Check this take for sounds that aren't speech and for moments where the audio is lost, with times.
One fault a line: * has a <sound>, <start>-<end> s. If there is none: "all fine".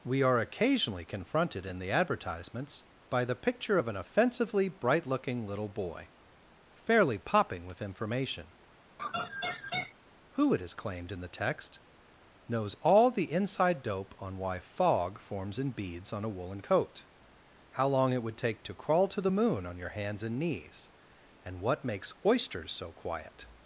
* has a laugh, 9.0-10.0 s